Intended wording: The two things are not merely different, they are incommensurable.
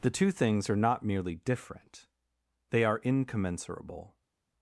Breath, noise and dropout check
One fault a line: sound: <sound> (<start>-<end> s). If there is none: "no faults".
no faults